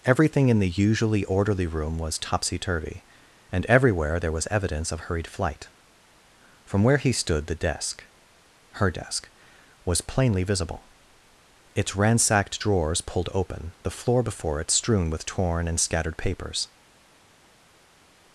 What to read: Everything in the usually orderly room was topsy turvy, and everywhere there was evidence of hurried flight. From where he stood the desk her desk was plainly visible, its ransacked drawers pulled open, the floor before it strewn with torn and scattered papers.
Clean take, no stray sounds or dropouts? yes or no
yes